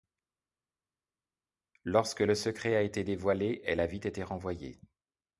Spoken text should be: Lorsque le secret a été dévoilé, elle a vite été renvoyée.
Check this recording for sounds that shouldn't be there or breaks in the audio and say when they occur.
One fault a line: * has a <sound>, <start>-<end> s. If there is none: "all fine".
all fine